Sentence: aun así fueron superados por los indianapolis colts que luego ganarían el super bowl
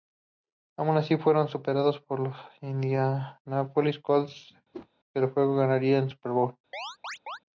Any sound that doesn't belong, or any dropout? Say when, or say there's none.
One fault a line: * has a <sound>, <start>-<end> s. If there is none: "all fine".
* has a whoosh, 4.7-4.9 s
* has a chirp, 6.7-7.4 s